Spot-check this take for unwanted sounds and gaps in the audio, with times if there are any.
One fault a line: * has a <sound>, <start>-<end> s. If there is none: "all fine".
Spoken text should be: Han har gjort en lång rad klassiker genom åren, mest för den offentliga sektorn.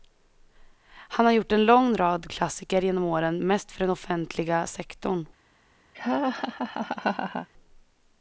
* has a laugh, 5.9-7.5 s